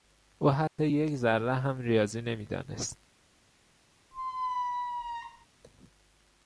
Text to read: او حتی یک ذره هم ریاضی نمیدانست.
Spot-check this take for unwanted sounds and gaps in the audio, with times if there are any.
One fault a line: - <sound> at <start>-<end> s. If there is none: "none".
- dropout at 0.7-0.8 s
- squeak at 4.1-5.5 s